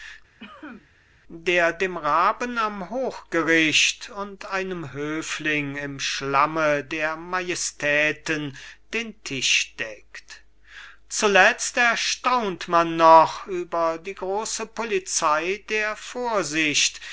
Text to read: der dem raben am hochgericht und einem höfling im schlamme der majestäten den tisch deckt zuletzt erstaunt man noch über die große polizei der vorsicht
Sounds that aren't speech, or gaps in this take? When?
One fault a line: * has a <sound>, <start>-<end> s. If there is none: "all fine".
* has a cough, 0.4-0.9 s